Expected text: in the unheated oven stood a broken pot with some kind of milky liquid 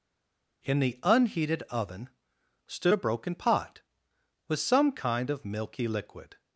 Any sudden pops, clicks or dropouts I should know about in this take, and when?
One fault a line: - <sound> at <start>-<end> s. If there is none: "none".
none